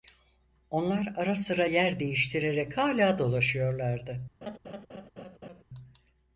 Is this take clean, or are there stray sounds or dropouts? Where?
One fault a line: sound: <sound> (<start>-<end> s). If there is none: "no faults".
sound: laugh (4.4-5.6 s)